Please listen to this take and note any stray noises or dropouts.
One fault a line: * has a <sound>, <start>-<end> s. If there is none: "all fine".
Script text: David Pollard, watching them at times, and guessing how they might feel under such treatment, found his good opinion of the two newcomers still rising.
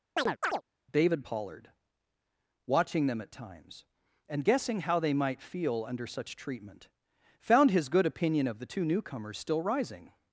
* has a chirp, 0.2-0.6 s